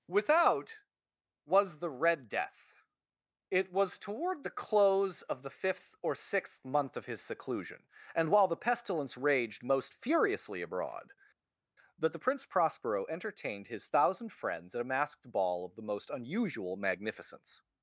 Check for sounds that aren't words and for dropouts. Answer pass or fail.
pass